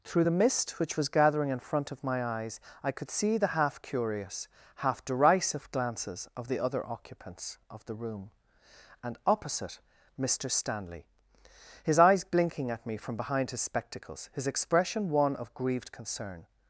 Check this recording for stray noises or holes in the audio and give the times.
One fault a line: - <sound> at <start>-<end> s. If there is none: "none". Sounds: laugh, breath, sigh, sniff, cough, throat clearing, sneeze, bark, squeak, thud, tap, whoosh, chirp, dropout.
none